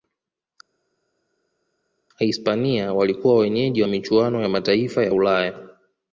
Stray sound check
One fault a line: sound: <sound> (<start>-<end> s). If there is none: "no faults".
no faults